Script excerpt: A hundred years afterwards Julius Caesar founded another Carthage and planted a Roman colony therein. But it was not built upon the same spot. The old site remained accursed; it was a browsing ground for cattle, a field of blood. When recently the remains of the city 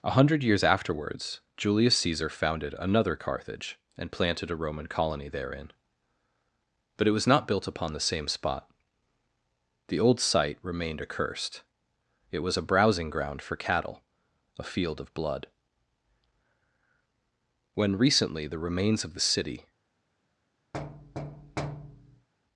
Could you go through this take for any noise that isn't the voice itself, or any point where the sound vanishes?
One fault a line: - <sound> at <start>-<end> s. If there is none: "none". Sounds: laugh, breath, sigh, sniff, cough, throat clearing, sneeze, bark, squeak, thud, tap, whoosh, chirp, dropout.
- thud at 20.7-22.3 s